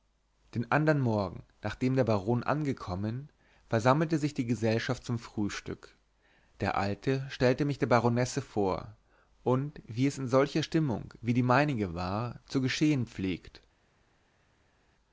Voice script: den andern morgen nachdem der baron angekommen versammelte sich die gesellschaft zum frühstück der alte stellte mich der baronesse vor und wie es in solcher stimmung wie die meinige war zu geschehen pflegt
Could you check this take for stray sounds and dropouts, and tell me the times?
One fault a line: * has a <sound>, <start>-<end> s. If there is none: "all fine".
all fine